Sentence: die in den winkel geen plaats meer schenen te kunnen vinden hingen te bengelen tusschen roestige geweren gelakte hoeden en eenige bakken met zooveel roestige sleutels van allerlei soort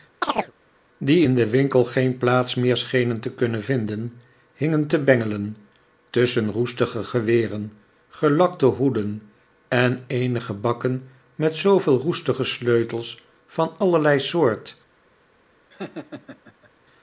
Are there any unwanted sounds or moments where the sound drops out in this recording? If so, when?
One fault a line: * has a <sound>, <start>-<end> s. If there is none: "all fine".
* has a chirp, 0.2-0.5 s
* has a laugh, 15.7-16.7 s